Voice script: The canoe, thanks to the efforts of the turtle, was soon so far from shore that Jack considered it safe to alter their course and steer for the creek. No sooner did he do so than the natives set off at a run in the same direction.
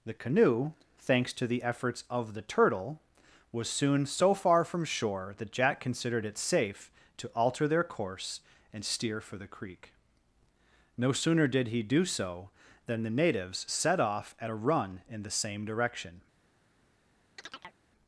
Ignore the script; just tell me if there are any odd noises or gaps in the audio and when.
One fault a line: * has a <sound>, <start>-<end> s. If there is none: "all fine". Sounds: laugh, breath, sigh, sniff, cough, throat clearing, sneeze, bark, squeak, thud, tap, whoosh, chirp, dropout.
* has a chirp, 17.4-17.8 s